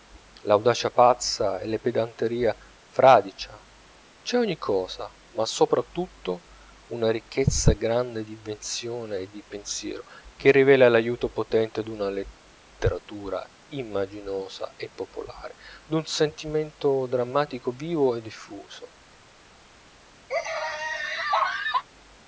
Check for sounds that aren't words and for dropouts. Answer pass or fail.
fail